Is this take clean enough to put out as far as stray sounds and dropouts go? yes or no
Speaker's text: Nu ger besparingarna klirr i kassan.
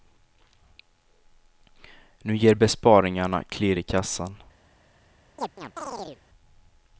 no